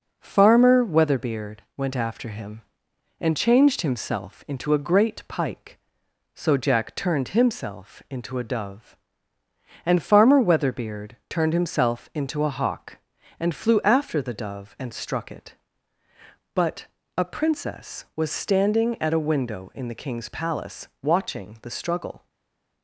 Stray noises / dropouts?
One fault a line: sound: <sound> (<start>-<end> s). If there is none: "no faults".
no faults